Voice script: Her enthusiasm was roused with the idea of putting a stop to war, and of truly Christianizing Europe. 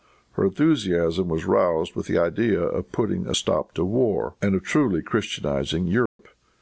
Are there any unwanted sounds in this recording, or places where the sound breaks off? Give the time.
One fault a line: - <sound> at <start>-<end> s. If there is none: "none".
- dropout at 6.1-6.2 s